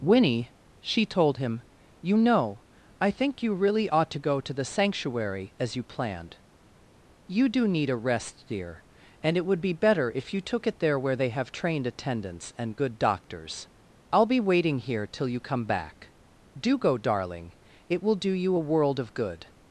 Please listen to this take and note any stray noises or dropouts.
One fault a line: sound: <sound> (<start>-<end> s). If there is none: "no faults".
no faults